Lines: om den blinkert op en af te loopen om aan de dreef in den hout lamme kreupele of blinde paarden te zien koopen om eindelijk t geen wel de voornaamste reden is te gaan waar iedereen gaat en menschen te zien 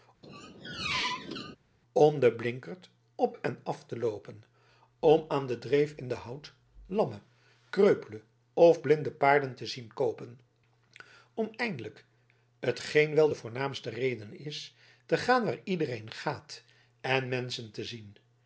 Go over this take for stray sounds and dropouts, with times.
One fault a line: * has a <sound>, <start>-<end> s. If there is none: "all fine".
* has a squeak, 0.2-1.6 s